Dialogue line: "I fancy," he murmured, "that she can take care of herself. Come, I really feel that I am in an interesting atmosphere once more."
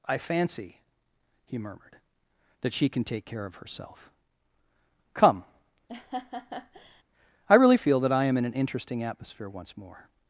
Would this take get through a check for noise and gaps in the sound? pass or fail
fail